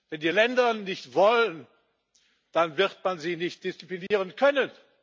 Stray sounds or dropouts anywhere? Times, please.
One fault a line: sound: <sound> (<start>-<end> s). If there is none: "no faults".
sound: dropout (4.1-4.1 s)